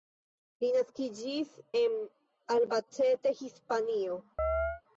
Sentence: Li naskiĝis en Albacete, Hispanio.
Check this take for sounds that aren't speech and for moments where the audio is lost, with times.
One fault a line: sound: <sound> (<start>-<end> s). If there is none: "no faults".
sound: chirp (4.4-4.8 s)